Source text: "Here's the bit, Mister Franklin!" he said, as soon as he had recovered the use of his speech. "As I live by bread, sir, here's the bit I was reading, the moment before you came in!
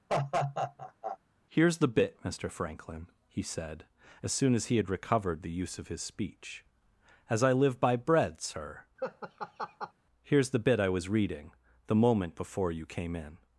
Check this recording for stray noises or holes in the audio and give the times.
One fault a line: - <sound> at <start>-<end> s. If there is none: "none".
- laugh at 0.1-1.2 s
- laugh at 9.0-9.9 s